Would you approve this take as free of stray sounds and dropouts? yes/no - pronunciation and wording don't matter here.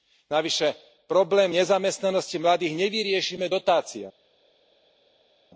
yes